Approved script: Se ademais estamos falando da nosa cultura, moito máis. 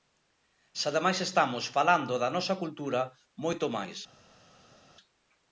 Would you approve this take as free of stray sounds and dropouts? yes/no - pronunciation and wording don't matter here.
yes